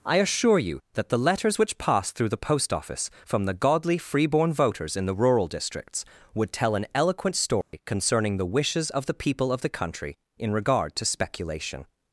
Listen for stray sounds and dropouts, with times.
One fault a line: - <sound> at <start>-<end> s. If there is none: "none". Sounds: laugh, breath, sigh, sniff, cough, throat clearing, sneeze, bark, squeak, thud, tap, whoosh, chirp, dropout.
- dropout at 7.6-7.7 s